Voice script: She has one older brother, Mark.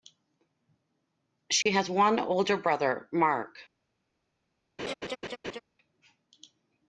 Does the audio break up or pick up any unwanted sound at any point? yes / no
yes